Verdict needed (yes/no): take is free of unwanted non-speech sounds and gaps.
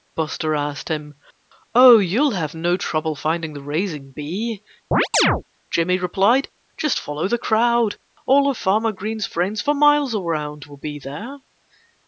no